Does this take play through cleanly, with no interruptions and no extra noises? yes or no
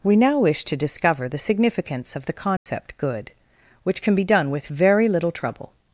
no